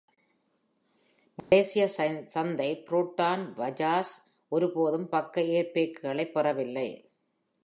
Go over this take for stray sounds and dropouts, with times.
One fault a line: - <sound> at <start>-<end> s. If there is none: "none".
- dropout at 1.4-1.5 s